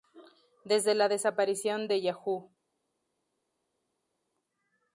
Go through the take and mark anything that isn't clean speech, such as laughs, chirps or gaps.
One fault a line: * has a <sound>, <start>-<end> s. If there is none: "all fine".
all fine